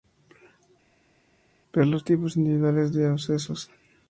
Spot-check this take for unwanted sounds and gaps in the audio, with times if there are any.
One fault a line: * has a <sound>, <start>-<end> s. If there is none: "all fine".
all fine